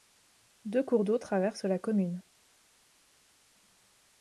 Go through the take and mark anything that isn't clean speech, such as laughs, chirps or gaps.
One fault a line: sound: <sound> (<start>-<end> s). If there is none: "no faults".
no faults